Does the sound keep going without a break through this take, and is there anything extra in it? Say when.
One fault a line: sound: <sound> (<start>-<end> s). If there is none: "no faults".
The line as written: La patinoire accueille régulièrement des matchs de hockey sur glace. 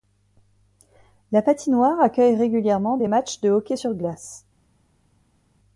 no faults